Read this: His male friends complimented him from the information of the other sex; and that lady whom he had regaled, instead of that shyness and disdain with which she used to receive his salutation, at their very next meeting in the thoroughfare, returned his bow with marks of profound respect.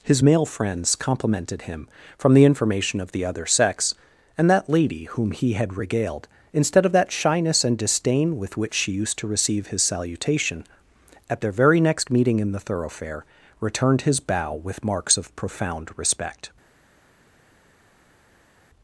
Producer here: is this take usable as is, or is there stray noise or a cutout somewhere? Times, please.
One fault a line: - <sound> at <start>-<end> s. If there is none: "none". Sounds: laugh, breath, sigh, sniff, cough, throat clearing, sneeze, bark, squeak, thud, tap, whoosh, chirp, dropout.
none